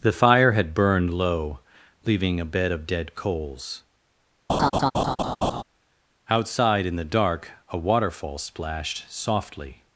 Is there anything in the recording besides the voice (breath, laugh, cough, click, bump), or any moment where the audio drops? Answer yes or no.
yes